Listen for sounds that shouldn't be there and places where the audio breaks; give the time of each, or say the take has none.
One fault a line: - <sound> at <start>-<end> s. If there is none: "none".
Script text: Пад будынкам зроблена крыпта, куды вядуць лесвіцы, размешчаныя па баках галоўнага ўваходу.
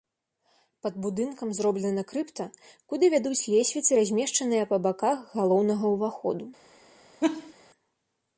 - laugh at 7.2-7.5 s